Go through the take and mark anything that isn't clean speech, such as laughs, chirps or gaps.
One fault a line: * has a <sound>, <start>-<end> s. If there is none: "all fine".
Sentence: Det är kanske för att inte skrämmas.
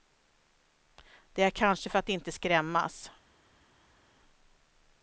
all fine